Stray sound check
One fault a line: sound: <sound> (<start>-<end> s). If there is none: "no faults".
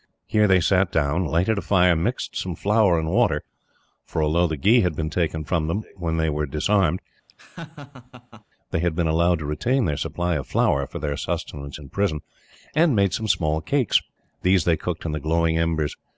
sound: laugh (7.3-8.4 s)